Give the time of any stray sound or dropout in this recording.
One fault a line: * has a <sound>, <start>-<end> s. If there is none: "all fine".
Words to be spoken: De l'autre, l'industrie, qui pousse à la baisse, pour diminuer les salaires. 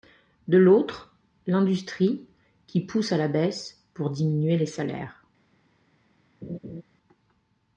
* has a laugh, 6.4-6.8 s